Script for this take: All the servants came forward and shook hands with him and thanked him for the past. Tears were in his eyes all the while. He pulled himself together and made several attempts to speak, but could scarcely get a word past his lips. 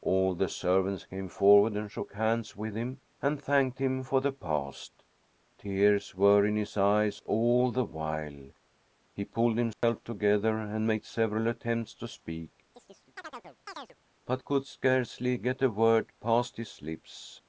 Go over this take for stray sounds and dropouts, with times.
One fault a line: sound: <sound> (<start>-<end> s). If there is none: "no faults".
sound: dropout (9.7-9.8 s)
sound: chirp (12.7-14.0 s)